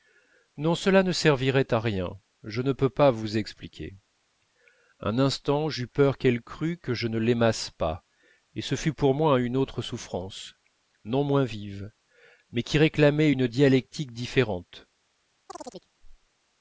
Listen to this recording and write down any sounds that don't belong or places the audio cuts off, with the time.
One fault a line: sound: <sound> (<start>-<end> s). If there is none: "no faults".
sound: chirp (15.5-15.9 s)